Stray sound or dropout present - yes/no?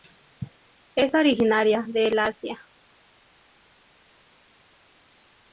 no